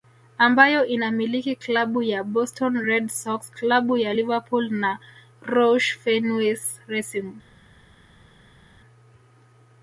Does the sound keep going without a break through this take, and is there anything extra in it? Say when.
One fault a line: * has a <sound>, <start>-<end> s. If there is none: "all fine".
all fine